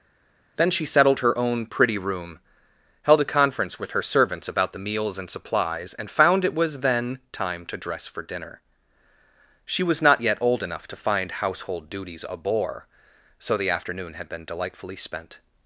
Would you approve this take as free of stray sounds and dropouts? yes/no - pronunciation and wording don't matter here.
yes